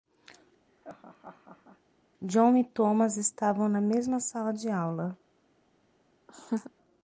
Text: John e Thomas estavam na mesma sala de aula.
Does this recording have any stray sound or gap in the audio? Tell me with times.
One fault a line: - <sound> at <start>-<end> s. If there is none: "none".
- laugh at 0.7-1.8 s
- laugh at 6.3-6.7 s